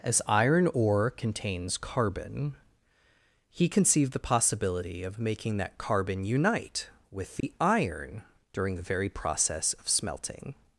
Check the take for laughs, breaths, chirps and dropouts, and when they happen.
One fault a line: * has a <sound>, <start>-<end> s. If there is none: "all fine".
* has a dropout, 7.4-7.4 s